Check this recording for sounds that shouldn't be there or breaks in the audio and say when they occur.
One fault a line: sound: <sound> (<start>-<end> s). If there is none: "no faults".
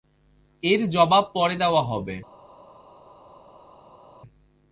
no faults